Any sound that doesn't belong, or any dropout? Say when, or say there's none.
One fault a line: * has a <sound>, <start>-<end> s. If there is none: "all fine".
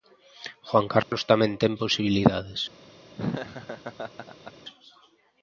* has a dropout, 1.0-1.1 s
* has a laugh, 3.2-4.5 s